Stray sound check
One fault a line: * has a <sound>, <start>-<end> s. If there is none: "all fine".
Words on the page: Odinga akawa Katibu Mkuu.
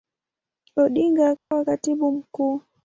* has a dropout, 1.4-1.5 s